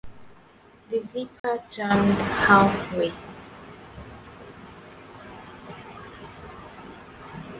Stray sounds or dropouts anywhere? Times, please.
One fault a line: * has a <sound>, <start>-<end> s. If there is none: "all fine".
* has a dropout, 1.4-1.4 s